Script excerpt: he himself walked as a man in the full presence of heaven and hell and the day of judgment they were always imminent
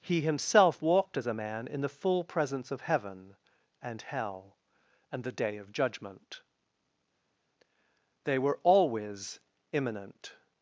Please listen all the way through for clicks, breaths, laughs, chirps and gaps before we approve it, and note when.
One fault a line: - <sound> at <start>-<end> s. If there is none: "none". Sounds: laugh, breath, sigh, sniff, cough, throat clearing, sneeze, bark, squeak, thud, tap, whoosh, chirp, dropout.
none